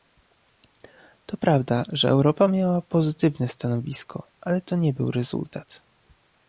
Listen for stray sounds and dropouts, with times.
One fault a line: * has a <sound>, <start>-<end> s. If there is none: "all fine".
all fine